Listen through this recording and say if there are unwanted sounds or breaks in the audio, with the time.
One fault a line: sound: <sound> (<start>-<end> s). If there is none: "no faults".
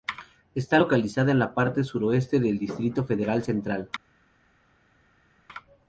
no faults